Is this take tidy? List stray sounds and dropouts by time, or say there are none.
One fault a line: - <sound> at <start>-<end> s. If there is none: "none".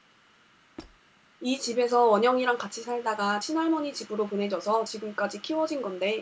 - squeak at 0.8-1.0 s